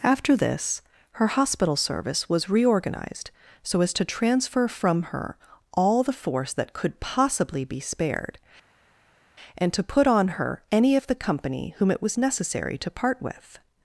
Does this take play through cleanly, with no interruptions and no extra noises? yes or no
yes